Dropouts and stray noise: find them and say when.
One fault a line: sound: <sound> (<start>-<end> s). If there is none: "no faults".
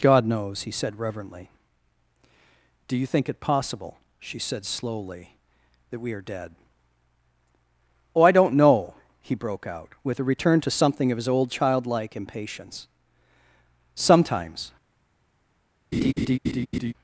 sound: laugh (15.9-16.9 s)